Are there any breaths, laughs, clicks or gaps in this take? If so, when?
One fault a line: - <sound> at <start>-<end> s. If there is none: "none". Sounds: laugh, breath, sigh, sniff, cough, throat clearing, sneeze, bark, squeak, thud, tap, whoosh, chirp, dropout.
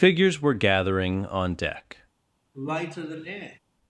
- sigh at 2.5-3.6 s